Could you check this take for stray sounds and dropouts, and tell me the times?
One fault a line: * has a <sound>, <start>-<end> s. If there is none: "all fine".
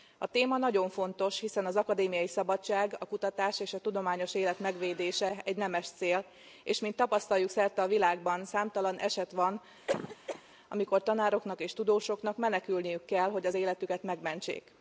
* has a cough, 9.9-10.4 s